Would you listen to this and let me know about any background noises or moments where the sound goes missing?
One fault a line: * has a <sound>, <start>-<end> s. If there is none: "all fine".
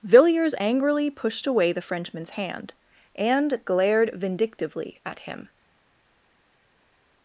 all fine